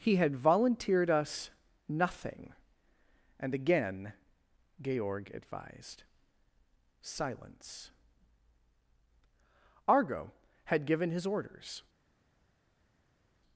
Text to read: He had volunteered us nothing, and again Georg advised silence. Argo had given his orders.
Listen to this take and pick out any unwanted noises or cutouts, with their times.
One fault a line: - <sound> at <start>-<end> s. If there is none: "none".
none